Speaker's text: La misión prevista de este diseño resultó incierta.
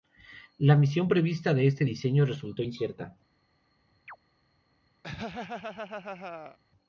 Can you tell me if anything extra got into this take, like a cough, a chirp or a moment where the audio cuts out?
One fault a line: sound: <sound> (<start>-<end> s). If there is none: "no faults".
sound: chirp (4.1-4.2 s)
sound: laugh (5.0-6.6 s)